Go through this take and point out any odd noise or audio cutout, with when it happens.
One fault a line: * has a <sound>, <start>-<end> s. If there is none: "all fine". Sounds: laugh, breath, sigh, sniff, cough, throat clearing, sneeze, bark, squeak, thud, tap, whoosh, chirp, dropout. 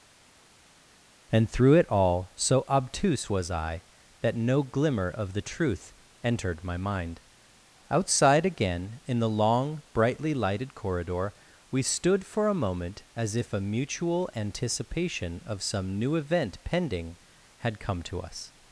all fine